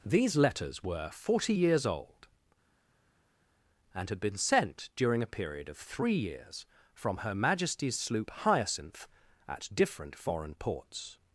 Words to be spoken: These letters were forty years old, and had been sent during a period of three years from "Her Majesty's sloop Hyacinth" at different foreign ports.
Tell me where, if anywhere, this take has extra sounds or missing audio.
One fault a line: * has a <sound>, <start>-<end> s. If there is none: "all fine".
all fine